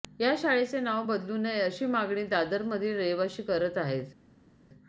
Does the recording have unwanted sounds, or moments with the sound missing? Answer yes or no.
no